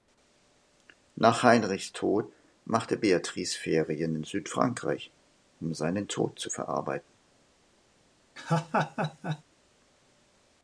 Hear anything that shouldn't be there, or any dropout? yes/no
yes